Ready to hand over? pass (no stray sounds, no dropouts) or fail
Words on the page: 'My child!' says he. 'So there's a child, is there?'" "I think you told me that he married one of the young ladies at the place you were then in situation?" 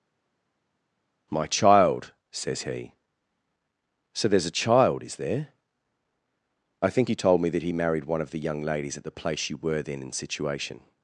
pass